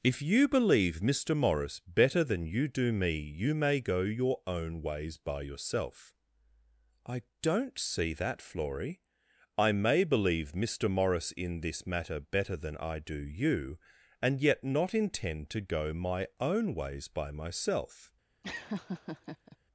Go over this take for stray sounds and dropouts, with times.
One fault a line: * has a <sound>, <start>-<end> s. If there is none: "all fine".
* has a laugh, 18.4-19.6 s